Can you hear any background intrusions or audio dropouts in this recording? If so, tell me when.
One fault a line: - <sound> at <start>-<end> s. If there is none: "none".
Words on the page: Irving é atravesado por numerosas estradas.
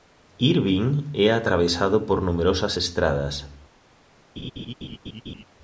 - laugh at 4.4-5.4 s